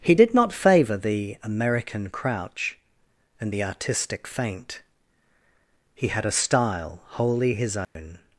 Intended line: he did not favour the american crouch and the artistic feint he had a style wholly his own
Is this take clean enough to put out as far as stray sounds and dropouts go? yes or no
no